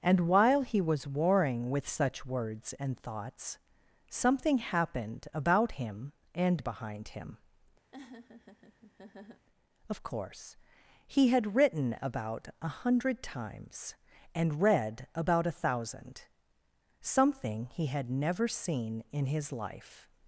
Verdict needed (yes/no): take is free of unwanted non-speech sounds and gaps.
no